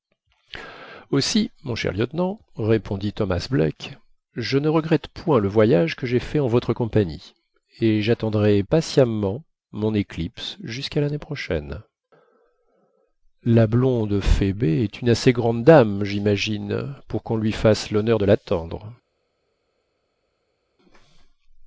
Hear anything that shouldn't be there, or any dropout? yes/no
no